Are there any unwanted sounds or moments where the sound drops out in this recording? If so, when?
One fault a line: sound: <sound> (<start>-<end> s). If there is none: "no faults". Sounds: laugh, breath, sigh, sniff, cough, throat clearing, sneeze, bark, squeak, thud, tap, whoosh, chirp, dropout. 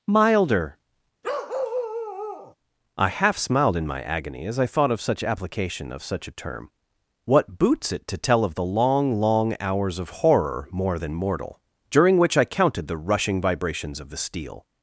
sound: bark (1.2-2.5 s)